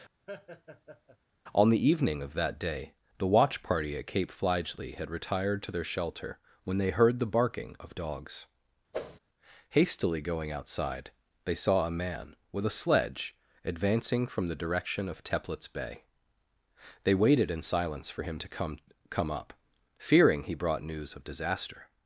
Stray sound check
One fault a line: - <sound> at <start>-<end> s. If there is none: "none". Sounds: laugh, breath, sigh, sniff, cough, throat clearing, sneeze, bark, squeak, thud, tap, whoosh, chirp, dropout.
- laugh at 0.3-1.2 s
- whoosh at 8.9-9.2 s